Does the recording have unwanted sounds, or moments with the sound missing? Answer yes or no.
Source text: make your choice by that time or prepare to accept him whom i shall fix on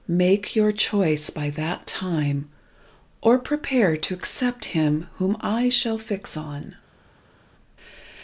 no